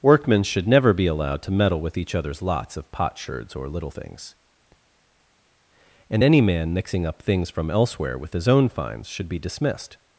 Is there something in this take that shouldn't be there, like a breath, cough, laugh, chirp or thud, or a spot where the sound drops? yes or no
no